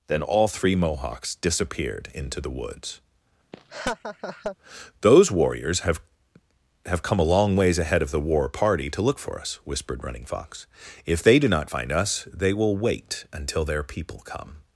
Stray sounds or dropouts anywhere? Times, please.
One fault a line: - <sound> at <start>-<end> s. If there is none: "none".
- laugh at 3.5-4.6 s